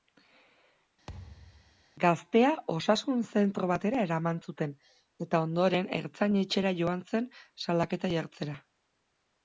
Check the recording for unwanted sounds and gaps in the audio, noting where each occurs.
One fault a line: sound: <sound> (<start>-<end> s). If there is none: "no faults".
sound: thud (1.1-1.8 s)